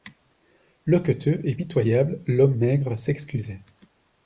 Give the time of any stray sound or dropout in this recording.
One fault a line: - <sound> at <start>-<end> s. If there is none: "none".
none